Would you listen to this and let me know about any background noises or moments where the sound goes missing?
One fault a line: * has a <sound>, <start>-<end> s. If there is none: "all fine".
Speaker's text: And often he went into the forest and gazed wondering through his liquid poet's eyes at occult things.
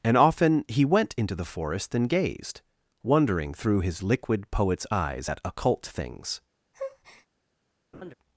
* has a breath, 6.7-7.3 s
* has a laugh, 7.9-8.1 s